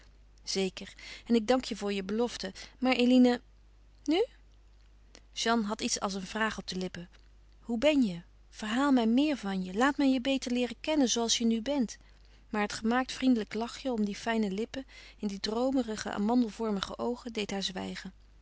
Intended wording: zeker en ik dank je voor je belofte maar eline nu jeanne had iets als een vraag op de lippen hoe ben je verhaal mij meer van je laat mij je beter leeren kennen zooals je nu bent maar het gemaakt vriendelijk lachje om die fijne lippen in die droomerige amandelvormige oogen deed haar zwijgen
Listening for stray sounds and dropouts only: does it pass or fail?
pass